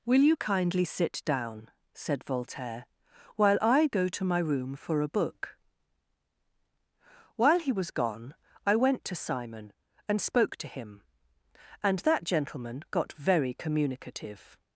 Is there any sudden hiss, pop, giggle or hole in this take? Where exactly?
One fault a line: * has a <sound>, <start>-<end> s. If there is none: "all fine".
all fine